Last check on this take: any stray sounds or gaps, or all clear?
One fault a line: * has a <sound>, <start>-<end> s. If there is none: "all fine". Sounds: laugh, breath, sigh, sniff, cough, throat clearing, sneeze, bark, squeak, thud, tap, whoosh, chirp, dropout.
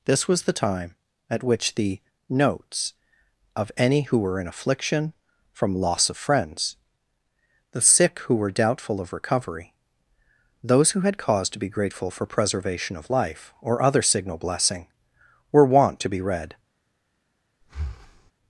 * has a breath, 17.6-18.3 s